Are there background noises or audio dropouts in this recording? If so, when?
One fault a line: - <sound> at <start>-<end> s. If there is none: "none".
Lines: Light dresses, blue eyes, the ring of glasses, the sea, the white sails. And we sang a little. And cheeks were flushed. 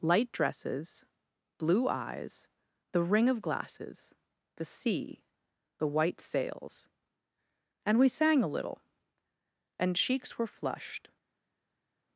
none